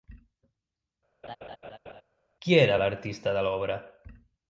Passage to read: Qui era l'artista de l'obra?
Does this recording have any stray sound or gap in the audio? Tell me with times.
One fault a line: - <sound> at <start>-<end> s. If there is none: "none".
- laugh at 1.2-2.0 s